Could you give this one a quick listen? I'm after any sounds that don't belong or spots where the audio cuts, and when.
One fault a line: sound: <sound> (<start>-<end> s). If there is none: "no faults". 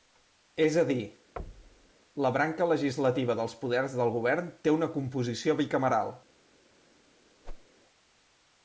sound: thud (1.4-1.9 s)
sound: whoosh (7.4-7.7 s)